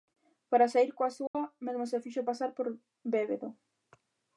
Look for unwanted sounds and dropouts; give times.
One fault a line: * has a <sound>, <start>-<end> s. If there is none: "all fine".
* has a dropout, 1.3-1.3 s